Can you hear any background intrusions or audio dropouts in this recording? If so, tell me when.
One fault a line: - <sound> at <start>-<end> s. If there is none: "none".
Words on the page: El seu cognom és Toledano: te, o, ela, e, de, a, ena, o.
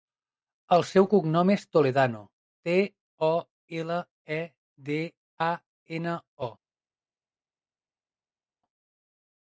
none